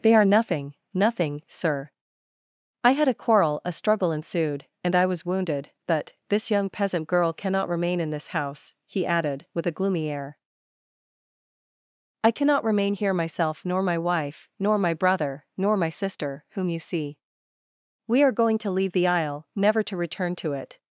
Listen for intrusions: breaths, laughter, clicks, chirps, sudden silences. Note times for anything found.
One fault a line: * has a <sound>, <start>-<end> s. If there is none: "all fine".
all fine